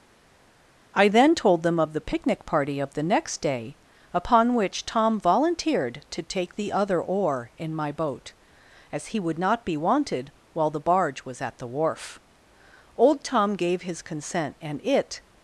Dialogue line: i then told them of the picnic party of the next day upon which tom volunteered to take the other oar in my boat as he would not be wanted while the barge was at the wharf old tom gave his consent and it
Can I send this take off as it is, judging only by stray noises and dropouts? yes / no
yes